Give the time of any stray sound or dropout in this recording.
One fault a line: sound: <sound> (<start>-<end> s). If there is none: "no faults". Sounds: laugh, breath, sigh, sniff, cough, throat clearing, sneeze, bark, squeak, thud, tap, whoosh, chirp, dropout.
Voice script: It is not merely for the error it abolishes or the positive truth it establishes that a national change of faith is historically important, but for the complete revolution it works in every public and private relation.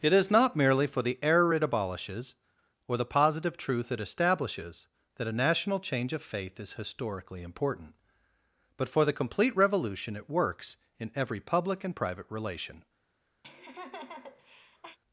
sound: laugh (13.4-15.0 s)